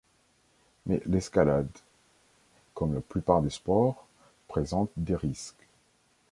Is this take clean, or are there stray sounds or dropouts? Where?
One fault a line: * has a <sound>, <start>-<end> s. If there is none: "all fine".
all fine